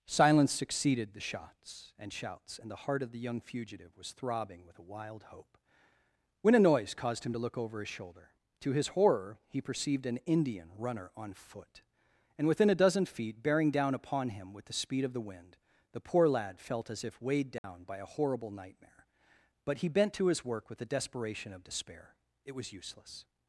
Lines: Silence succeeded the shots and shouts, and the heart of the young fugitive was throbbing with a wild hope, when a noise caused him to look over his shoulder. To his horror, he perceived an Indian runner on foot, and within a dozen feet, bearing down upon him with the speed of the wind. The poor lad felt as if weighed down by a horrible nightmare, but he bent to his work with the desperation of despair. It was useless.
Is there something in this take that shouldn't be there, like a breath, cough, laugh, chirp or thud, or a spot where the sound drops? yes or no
yes